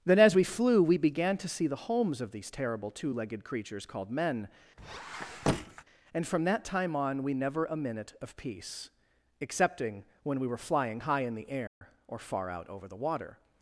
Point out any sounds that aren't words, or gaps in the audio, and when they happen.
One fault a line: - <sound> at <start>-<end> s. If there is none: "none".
- squeak at 4.8-5.8 s
- dropout at 11.7-11.8 s